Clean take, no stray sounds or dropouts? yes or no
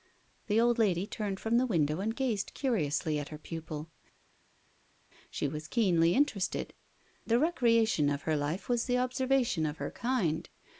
yes